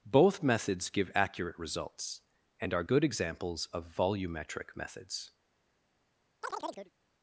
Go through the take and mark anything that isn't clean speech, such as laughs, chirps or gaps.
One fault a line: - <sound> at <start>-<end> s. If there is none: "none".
- chirp at 6.4-6.9 s